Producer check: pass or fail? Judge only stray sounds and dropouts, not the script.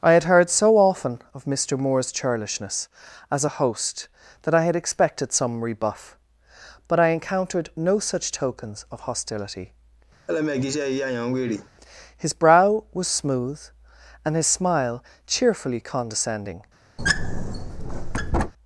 fail